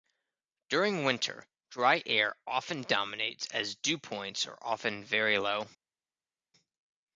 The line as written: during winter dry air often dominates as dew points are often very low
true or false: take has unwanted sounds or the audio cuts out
false